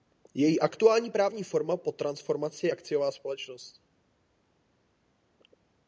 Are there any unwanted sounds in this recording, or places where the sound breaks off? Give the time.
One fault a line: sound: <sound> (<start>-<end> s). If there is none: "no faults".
no faults